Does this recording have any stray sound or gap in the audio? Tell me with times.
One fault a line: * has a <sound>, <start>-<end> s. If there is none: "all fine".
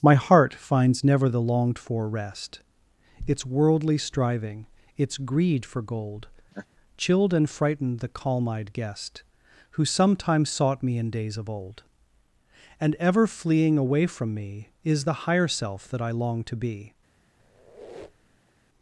* has a laugh, 6.5-6.7 s
* has a squeak, 17.4-18.5 s